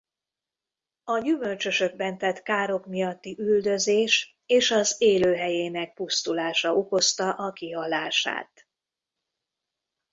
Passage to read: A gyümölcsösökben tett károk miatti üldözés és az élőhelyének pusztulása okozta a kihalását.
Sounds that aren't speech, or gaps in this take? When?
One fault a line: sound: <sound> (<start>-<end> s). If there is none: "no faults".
no faults